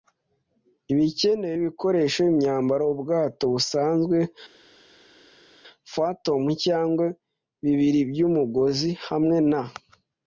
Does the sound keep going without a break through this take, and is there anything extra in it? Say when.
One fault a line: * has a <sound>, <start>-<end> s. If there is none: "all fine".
all fine